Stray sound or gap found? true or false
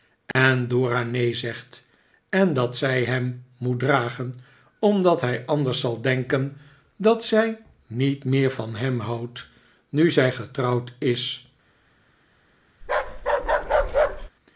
true